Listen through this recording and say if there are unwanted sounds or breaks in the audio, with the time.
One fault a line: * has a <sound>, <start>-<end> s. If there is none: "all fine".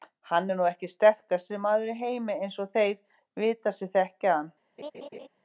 * has a laugh, 4.8-5.3 s